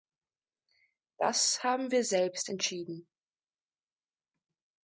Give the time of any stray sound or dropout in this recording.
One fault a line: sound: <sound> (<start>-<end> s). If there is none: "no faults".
no faults